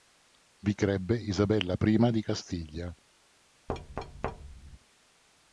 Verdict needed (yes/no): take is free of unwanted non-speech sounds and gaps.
no